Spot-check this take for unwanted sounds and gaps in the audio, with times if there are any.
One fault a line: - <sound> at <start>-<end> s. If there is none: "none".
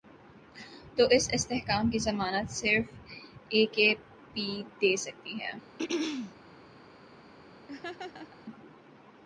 - throat clearing at 5.8-6.3 s
- laugh at 7.7-8.4 s